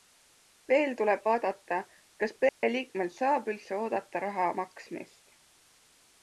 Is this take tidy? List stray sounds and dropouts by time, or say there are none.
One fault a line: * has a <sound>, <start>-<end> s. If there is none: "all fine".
* has a dropout, 2.5-2.6 s